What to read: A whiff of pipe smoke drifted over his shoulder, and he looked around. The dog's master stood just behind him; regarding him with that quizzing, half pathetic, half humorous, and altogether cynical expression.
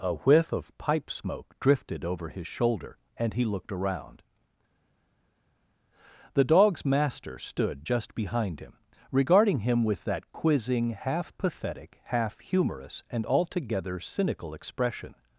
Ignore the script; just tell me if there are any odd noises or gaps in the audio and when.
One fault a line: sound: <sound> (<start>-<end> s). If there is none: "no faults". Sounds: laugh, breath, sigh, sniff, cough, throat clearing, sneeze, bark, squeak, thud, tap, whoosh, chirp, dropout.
no faults